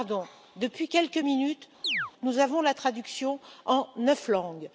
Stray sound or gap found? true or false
true